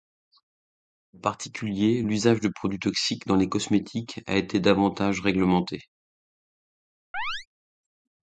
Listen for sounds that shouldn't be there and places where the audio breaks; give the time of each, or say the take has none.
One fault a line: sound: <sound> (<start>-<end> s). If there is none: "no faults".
sound: chirp (7.1-7.5 s)